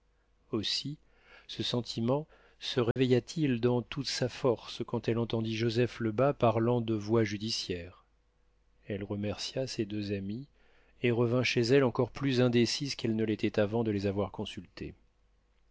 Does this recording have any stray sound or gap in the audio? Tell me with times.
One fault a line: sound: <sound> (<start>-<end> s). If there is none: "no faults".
sound: dropout (2.9-3.0 s)